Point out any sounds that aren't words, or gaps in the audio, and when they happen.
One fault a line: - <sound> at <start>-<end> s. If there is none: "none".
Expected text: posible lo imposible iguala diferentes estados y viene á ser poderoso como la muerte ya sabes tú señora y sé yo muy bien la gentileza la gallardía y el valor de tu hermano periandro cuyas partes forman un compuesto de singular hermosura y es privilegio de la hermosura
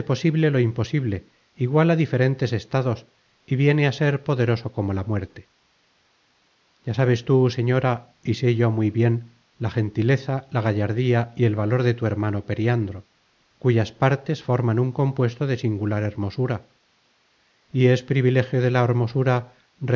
none